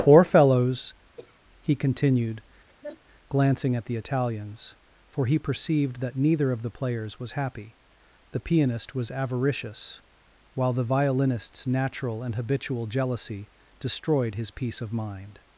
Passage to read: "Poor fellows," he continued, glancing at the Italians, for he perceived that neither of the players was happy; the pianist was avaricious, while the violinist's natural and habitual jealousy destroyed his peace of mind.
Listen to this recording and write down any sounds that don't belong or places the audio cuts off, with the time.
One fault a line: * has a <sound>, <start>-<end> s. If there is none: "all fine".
* has a throat clearing, 1.2-1.4 s
* has a laugh, 2.7-3.0 s